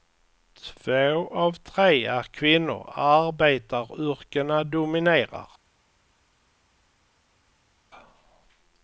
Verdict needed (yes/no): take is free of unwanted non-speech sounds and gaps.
yes